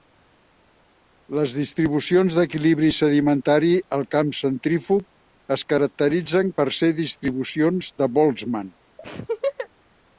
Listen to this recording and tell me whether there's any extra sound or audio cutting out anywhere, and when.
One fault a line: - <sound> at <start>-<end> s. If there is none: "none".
- laugh at 9.0-9.7 s